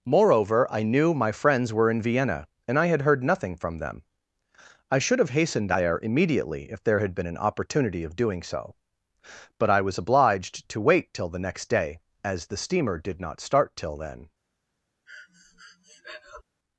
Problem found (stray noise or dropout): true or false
true